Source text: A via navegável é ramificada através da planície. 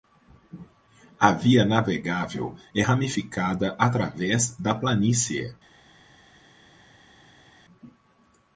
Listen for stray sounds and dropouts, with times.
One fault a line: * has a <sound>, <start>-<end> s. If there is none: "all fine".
all fine